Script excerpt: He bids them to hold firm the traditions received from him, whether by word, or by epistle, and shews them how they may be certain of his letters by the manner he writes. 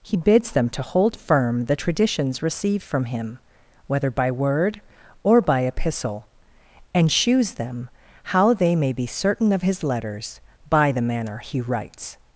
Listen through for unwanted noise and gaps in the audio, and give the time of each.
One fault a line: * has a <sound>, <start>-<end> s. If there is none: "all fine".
all fine